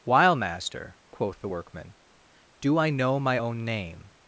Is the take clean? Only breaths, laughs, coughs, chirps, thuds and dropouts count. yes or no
yes